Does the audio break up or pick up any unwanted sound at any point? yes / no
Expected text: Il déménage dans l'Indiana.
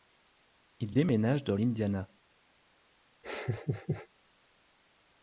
yes